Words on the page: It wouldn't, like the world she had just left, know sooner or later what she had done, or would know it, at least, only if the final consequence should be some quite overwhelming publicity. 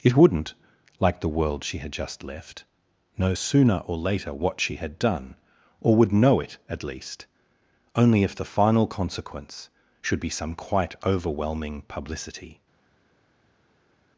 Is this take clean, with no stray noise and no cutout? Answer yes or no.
yes